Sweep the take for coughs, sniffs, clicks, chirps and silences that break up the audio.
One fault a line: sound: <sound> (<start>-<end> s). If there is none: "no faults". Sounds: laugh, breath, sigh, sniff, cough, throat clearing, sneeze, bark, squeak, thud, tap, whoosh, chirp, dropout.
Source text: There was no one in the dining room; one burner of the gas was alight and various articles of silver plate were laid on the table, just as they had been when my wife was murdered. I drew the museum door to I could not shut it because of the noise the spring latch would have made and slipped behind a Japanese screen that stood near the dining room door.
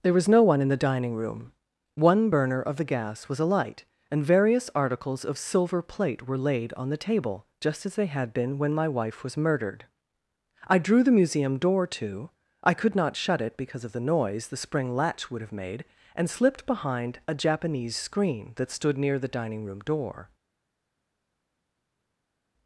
no faults